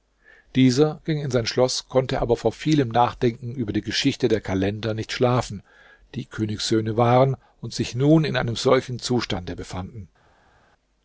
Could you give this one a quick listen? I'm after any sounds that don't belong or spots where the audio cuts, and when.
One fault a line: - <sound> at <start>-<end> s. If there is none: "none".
none